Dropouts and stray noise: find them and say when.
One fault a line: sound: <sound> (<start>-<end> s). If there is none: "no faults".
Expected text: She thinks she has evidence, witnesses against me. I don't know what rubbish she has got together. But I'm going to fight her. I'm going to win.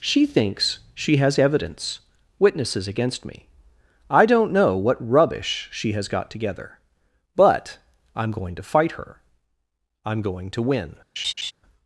sound: laugh (11.2-11.5 s)